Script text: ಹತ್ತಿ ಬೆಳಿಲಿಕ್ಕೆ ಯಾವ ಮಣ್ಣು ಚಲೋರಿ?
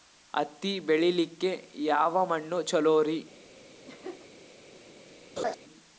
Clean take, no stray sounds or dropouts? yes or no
no